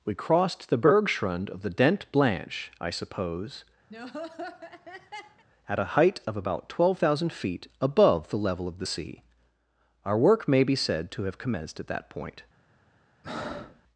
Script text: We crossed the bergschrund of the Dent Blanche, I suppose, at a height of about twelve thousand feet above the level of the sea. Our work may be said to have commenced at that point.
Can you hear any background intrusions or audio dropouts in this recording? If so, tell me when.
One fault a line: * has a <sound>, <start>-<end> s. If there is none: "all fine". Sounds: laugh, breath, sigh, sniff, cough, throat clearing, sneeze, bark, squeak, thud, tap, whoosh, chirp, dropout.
* has a laugh, 3.9-5.4 s
* has a breath, 13.2-13.8 s